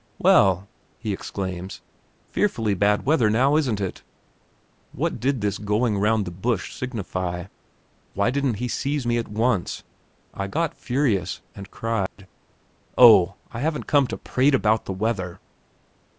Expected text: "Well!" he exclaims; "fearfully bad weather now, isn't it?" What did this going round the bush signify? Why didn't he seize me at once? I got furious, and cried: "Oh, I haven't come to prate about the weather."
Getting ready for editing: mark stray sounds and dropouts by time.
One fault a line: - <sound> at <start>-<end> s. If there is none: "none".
- dropout at 12.1-12.2 s